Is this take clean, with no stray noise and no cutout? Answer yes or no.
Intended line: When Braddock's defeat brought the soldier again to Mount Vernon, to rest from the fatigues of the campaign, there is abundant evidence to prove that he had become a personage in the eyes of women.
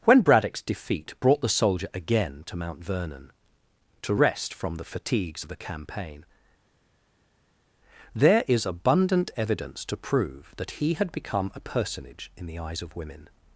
yes